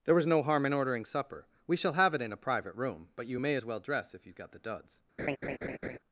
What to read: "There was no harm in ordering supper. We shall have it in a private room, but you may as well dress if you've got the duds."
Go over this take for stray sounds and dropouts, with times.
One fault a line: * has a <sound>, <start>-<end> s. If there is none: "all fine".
* has a laugh, 5.2-6.0 s